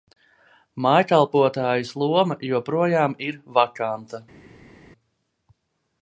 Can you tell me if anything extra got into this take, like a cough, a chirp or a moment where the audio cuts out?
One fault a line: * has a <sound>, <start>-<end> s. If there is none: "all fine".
all fine